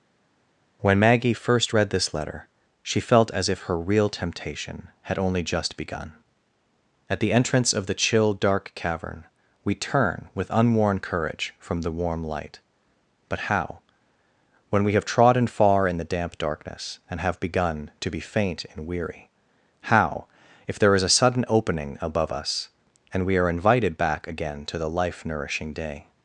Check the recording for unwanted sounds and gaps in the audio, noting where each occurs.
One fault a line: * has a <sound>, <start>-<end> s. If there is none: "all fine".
all fine